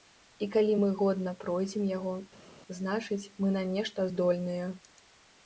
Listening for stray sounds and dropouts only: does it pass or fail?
pass